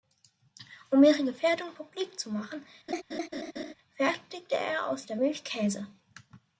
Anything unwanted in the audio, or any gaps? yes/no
yes